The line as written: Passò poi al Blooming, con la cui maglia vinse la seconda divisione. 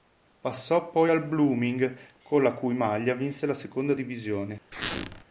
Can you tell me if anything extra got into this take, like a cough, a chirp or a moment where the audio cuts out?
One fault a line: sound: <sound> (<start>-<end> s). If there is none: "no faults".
sound: squeak (4.7-5.2 s)